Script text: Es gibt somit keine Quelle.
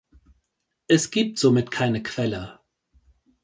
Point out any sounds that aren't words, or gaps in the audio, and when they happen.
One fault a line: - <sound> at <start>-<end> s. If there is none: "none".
none